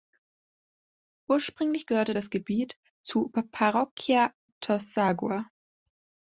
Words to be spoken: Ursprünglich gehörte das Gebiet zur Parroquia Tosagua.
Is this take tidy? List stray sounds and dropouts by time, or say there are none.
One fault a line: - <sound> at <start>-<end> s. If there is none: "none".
none